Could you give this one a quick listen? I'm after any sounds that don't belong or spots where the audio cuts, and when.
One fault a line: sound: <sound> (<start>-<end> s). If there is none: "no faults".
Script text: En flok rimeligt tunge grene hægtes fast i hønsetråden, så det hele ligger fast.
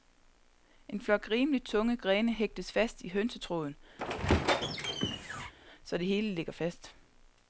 sound: squeak (4.0-5.5 s)